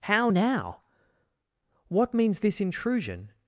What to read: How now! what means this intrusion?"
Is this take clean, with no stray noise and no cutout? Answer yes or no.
yes